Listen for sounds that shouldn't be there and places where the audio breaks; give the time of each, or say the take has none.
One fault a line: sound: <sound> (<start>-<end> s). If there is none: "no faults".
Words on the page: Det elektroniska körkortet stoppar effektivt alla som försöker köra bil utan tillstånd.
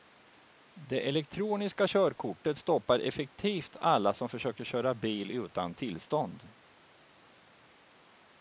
no faults